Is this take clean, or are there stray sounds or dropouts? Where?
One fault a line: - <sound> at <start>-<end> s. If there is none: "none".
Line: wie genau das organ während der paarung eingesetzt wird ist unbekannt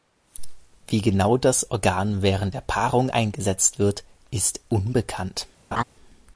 - laugh at 5.7-5.8 s